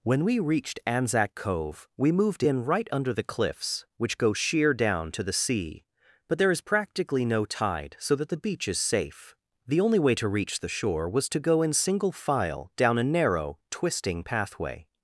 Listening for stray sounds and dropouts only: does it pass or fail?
pass